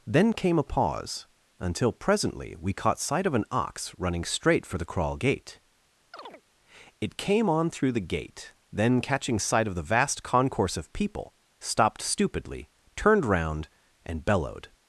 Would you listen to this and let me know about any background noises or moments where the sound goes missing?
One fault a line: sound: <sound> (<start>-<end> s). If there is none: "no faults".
sound: chirp (6.1-6.4 s)